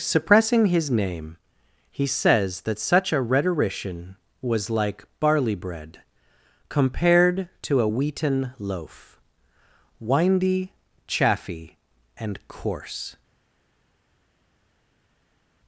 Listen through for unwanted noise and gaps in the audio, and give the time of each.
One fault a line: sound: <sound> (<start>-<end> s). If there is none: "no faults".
no faults